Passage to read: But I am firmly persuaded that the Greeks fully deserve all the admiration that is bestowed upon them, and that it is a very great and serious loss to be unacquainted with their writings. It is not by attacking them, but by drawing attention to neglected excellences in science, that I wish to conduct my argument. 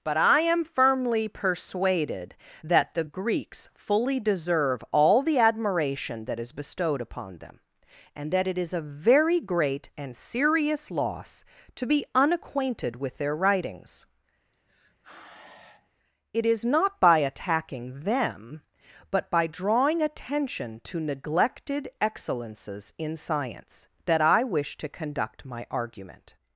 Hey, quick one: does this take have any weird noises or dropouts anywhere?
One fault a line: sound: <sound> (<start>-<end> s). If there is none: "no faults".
sound: sigh (14.5-15.9 s)